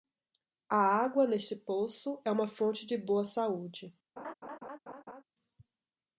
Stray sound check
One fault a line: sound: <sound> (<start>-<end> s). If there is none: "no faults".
sound: laugh (4.2-5.2 s)